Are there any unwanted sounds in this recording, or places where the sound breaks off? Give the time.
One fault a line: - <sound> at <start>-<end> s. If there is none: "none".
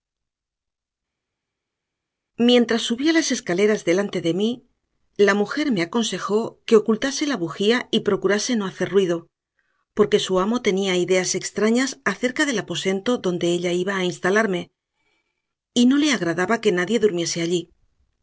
none